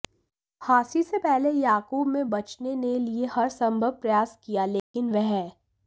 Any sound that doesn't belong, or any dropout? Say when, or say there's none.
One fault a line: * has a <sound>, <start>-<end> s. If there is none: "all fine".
* has a dropout, 4.8-4.9 s